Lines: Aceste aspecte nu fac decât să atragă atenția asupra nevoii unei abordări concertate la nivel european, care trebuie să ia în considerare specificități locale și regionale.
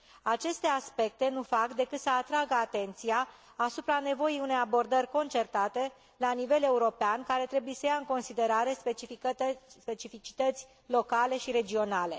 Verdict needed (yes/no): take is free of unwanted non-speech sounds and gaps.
yes